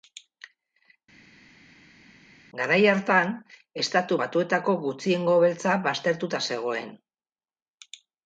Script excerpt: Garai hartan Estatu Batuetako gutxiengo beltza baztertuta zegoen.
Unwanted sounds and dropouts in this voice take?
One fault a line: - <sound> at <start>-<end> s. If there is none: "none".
none